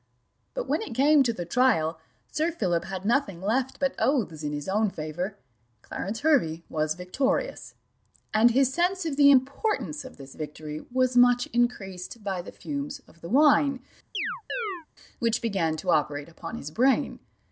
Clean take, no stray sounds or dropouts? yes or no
no